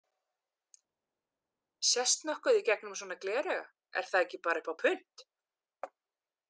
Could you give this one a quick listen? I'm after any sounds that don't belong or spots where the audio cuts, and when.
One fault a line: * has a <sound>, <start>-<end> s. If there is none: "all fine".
all fine